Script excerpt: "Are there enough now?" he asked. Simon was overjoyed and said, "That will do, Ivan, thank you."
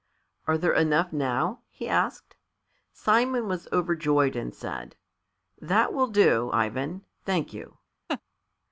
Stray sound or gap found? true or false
true